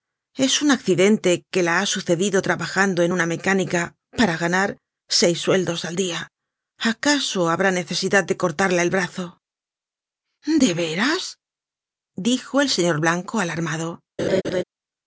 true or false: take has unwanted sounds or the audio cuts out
true